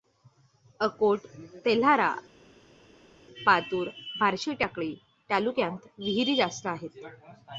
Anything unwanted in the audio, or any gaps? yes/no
no